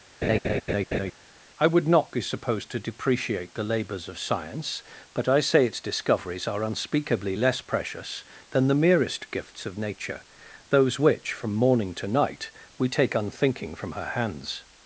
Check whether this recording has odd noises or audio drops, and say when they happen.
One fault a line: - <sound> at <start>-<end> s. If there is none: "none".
- laugh at 0.2-1.1 s